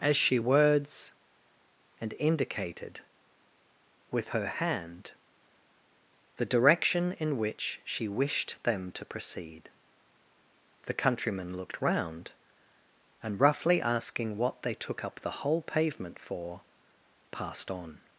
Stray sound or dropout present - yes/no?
no